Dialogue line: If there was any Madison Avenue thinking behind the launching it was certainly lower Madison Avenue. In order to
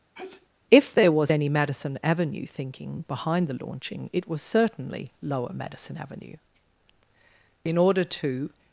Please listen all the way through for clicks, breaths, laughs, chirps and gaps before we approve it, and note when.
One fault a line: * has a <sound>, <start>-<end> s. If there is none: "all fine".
* has a sneeze, 0.1-0.5 s